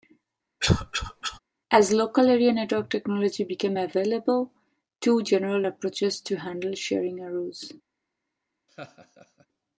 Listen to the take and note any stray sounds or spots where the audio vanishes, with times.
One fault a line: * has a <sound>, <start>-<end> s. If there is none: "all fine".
* has a cough, 0.6-1.4 s
* has a laugh, 8.7-9.5 s